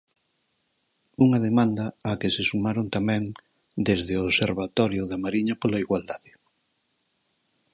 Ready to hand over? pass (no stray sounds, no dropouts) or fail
pass